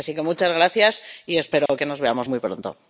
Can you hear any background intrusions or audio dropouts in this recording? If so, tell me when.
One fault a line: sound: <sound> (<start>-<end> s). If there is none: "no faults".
sound: dropout (1.7-1.7 s)